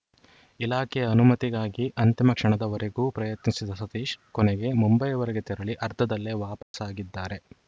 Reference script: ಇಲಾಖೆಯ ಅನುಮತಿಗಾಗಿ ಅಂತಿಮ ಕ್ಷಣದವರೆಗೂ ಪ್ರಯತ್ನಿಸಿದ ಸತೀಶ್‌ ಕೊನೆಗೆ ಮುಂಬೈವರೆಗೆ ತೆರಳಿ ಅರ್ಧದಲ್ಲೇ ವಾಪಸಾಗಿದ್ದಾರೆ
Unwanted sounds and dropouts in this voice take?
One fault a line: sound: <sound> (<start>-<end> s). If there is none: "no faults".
sound: dropout (6.6-6.7 s)